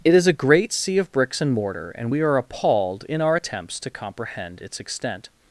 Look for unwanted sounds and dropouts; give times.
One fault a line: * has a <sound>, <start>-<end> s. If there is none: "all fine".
all fine